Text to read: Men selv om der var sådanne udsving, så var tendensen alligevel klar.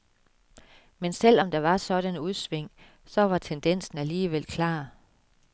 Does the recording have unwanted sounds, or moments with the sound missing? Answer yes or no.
no